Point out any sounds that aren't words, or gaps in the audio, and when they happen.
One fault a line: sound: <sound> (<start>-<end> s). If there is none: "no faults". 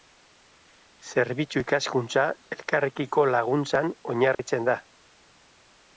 sound: dropout (4.3-4.4 s)